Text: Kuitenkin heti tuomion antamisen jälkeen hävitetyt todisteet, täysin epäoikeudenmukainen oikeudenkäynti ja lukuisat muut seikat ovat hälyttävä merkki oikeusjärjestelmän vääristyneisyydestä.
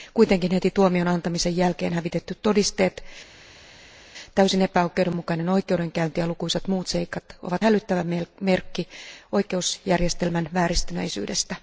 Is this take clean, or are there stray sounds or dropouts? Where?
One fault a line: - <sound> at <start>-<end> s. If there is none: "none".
none